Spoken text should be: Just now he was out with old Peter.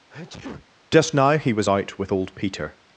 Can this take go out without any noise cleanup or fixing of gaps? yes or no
no